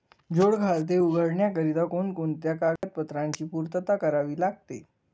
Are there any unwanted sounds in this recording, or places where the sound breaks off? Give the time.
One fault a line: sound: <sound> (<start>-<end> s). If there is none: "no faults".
sound: dropout (2.8-2.8 s)